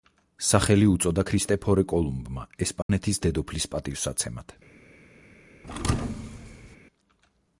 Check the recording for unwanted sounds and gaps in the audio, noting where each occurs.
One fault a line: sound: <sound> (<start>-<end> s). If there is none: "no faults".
sound: dropout (2.8-2.9 s)
sound: thud (5.6-6.8 s)